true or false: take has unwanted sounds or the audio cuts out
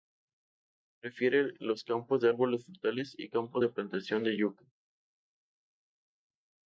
false